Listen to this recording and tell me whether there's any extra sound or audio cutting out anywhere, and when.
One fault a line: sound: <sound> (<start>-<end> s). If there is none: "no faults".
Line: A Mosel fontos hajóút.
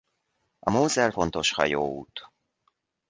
no faults